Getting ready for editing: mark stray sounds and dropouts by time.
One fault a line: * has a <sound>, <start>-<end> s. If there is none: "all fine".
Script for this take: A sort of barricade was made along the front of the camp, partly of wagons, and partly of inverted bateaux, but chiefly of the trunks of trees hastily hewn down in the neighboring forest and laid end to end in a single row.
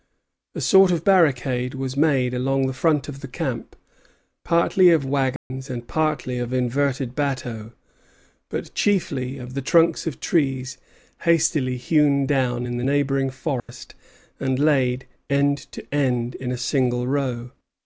* has a dropout, 5.4-5.5 s
* has a dropout, 13.6-13.7 s